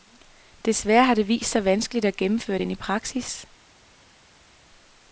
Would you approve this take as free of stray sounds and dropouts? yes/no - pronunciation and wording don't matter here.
yes